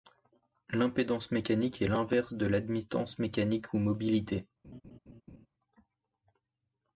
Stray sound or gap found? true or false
true